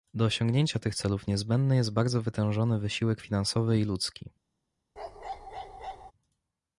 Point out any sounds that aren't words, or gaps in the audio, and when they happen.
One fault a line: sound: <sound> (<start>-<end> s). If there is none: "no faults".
sound: bark (5.0-6.1 s)